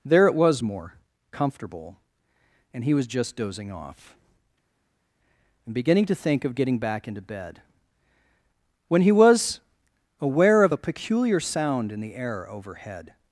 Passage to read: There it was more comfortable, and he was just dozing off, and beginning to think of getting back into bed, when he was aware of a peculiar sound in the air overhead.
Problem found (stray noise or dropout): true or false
false